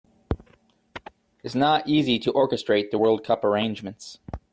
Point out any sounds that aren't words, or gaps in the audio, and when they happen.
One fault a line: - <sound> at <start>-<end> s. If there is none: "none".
none